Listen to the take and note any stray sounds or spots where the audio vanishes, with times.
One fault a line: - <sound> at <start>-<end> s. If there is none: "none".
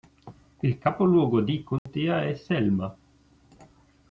- dropout at 1.8-1.9 s